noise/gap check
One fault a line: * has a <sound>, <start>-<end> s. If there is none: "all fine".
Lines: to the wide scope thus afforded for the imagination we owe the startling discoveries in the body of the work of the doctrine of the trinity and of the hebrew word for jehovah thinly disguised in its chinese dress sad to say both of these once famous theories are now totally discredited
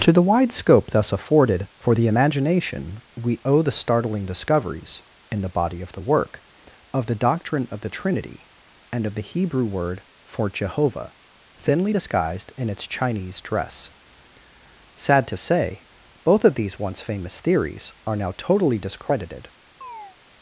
* has a chirp, 19.8-20.2 s